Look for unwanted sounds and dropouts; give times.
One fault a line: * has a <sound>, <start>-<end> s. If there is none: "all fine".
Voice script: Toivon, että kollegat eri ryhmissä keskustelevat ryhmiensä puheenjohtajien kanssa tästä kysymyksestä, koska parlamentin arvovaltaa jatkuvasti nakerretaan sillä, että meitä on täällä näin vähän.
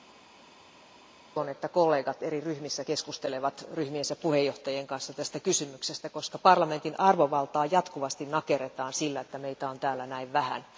all fine